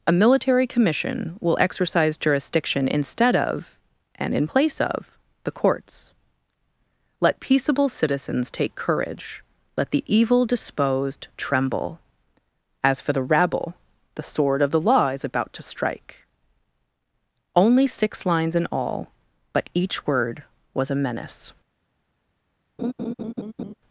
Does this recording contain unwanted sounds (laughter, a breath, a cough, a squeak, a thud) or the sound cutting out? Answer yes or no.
yes